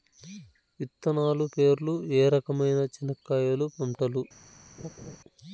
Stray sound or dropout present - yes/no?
yes